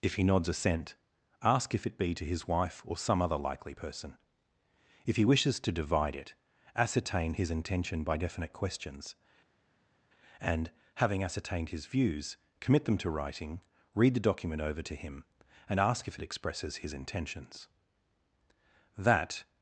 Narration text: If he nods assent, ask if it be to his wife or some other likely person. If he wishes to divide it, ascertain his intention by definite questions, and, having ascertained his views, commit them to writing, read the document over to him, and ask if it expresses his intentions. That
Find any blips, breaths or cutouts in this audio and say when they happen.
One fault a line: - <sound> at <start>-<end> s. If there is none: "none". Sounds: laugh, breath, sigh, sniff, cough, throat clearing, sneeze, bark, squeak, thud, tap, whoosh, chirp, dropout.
none